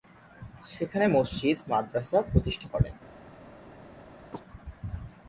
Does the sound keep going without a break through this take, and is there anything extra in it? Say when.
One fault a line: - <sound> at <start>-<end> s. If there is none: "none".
- chirp at 4.3-4.4 s